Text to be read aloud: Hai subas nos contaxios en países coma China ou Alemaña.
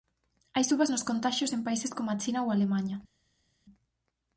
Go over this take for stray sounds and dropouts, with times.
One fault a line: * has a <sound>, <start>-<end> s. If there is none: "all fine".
all fine